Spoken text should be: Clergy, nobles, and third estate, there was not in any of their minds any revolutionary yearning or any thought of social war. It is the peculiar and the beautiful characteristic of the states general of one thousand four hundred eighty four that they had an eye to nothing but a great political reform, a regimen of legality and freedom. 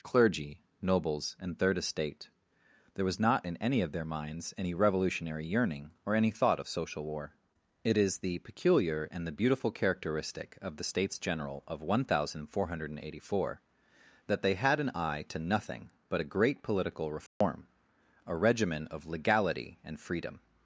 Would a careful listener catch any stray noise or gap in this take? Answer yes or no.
yes